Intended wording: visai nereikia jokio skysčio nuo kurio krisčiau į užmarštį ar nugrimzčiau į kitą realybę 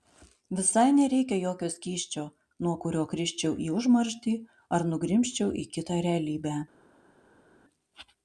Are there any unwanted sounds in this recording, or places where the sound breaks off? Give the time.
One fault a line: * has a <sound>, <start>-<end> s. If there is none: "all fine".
all fine